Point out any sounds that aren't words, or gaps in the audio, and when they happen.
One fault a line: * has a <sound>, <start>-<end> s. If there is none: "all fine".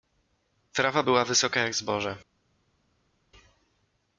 all fine